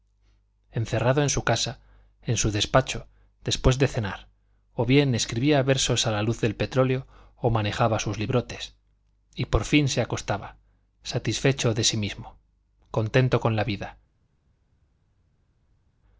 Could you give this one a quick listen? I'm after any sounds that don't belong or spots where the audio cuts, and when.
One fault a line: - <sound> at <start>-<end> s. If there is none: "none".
none